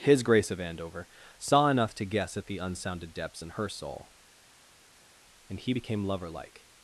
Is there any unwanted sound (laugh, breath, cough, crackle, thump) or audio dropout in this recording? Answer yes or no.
no